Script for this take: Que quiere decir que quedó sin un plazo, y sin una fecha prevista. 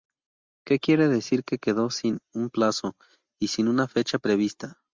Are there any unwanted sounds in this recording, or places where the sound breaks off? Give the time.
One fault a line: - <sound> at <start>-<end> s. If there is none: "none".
none